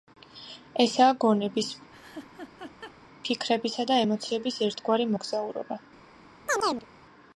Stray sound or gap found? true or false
true